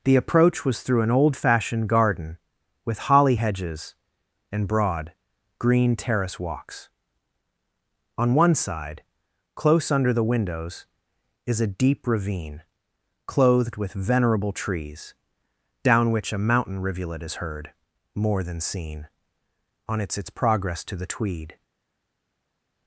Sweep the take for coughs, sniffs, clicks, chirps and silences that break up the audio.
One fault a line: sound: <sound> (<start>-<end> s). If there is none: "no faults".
no faults